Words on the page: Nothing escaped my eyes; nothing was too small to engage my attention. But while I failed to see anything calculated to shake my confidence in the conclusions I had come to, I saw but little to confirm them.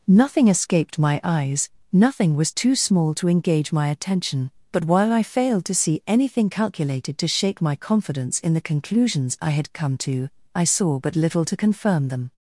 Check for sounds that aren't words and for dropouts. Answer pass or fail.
pass